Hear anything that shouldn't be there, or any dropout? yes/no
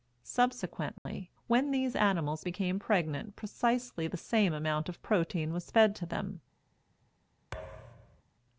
yes